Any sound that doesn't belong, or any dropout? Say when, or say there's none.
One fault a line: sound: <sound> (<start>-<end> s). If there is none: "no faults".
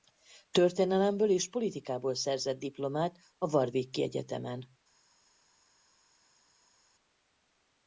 no faults